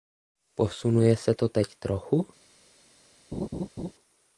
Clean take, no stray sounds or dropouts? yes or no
no